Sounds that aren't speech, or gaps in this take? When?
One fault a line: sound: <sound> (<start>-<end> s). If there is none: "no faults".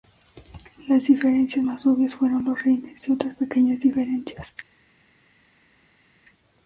no faults